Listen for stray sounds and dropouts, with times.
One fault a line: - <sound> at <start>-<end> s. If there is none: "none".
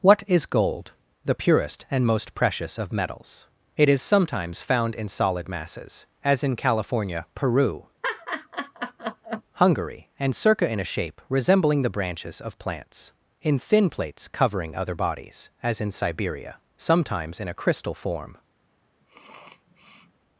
- laugh at 8.0-9.4 s
- sniff at 19.0-20.2 s